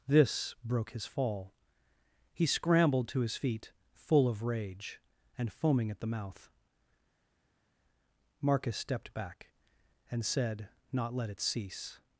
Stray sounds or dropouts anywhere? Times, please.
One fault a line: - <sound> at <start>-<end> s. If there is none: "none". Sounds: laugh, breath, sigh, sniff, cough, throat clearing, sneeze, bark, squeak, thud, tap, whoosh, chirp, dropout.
none